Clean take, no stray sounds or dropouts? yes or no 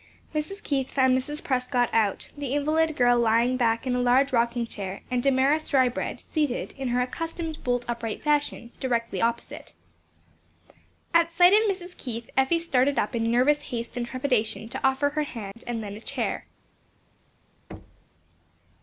no